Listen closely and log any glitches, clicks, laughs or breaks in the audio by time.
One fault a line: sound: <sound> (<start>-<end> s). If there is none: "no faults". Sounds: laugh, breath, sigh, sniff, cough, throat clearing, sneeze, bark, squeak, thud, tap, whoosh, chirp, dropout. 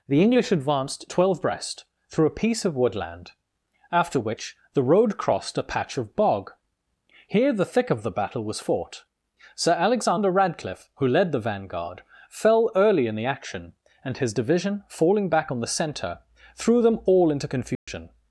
sound: dropout (17.8-17.9 s)